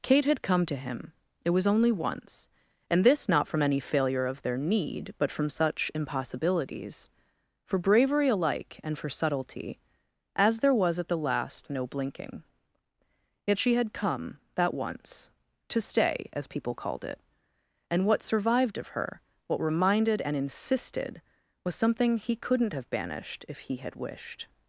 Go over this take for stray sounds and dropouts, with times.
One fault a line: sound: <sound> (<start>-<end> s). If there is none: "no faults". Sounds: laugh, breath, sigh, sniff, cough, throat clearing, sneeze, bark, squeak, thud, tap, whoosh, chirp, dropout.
no faults